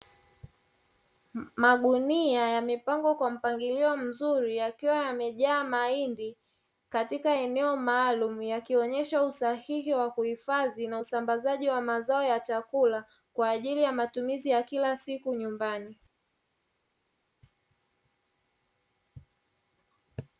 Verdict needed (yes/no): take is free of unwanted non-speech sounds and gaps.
yes